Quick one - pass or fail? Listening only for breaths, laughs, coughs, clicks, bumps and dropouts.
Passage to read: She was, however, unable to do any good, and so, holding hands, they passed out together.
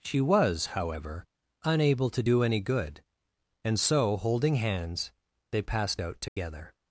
fail